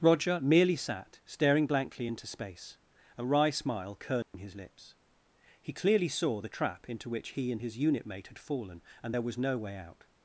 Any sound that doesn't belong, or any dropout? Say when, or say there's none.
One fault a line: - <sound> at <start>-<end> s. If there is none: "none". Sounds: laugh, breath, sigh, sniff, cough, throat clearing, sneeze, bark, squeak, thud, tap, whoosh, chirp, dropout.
- dropout at 4.2-4.3 s